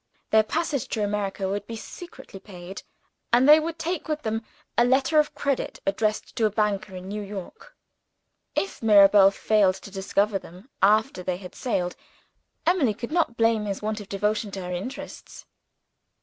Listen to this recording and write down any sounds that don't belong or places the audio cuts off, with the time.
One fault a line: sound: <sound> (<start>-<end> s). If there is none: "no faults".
no faults